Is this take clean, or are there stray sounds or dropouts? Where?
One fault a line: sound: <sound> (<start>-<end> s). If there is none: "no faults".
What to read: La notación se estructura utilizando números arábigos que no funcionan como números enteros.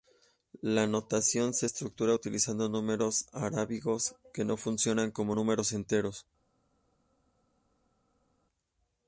no faults